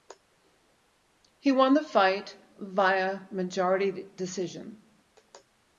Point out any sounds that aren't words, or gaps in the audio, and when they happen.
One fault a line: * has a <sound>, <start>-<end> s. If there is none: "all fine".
all fine